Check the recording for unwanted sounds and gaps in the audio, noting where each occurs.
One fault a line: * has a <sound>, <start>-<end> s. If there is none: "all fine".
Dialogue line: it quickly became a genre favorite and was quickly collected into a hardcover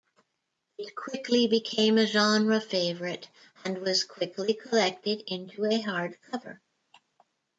all fine